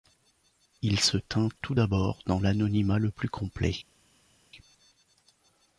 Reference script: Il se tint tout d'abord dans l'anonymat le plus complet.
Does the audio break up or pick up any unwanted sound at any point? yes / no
no